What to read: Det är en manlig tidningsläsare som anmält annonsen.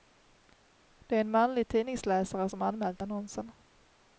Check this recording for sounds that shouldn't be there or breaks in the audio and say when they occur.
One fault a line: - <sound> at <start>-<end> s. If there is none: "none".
none